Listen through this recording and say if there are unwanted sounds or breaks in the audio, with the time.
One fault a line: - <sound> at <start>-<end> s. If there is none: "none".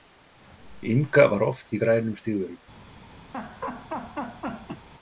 - laugh at 3.3-4.9 s